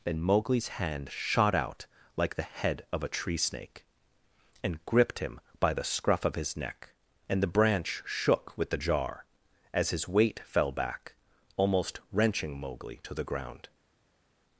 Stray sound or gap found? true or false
false